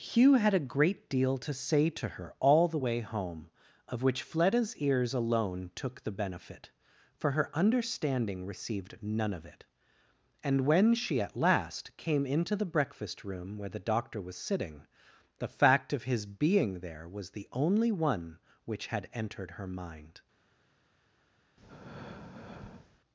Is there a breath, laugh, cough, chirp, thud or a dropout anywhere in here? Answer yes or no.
yes